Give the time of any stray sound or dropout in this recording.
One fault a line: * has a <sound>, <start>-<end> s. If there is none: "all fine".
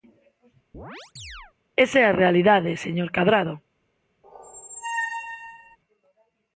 * has a chirp, 0.7-1.5 s
* has a squeak, 4.2-5.8 s